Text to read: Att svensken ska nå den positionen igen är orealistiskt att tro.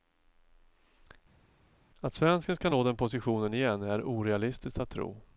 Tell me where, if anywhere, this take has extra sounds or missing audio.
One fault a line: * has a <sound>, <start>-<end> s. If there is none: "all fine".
all fine